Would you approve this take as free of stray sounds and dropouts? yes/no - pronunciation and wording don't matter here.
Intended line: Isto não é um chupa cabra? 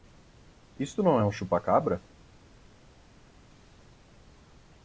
yes